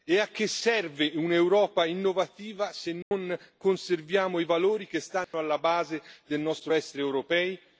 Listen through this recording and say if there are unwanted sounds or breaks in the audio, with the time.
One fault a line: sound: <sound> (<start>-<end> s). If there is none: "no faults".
sound: dropout (3.0-3.1 s)
sound: dropout (5.2-5.3 s)